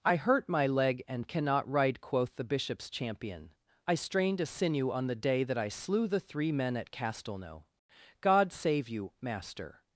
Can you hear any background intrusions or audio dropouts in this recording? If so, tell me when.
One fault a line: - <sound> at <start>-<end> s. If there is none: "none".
none